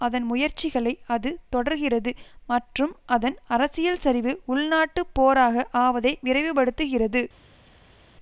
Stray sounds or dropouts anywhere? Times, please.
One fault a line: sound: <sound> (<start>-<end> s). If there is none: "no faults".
no faults